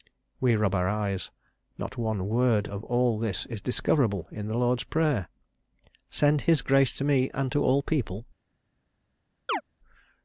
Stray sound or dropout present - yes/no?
yes